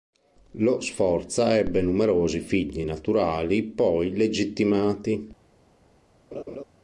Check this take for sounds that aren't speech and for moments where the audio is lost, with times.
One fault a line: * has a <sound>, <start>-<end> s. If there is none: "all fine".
* has a laugh, 6.3-6.6 s